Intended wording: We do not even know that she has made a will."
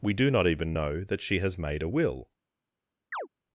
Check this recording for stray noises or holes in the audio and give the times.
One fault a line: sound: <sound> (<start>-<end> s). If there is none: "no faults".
sound: chirp (3.1-3.3 s)